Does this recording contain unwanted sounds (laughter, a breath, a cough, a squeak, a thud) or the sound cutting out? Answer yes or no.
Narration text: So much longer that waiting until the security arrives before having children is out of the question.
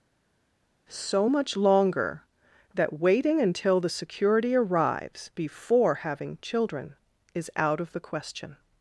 no